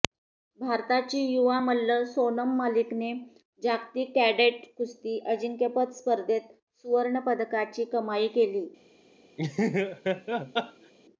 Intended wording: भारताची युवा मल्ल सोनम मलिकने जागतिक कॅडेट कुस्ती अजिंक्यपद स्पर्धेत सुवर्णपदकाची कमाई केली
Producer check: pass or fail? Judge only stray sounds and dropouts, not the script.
fail